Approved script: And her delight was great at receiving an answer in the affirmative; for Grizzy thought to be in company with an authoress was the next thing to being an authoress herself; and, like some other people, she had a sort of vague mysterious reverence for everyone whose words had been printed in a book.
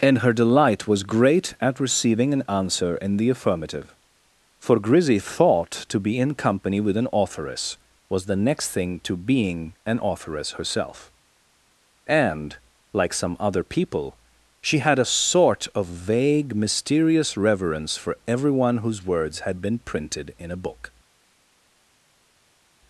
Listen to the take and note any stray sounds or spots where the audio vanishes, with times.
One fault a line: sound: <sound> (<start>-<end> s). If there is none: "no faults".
no faults